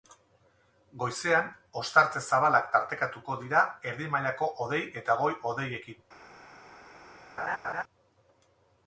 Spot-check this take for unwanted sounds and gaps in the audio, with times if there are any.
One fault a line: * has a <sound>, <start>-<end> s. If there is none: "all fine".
* has a laugh, 7.4-7.8 s